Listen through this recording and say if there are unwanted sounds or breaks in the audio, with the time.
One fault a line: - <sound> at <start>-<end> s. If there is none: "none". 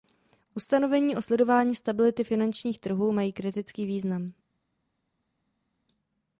none